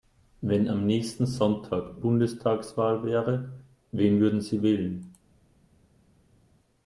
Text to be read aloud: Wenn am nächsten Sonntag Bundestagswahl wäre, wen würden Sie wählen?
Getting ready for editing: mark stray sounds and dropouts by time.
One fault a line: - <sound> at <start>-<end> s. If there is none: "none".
none